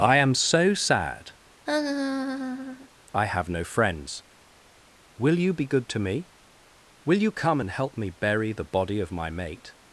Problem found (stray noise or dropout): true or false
true